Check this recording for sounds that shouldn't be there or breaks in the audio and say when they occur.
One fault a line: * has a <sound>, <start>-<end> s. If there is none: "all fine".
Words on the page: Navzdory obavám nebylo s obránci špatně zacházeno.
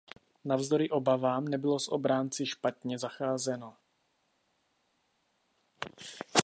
all fine